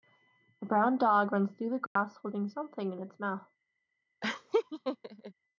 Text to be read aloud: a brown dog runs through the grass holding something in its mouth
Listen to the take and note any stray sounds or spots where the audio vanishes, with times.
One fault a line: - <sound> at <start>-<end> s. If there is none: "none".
- dropout at 1.9-2.0 s
- laugh at 4.2-5.3 s